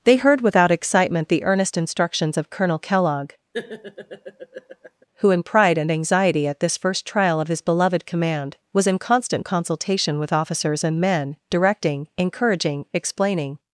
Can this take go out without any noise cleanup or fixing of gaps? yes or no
no